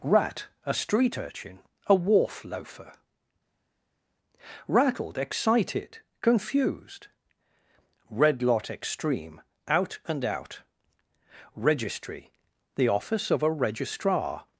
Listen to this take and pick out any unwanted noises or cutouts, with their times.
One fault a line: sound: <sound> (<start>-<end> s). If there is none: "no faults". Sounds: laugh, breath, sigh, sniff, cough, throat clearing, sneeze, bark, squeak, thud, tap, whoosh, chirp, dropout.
no faults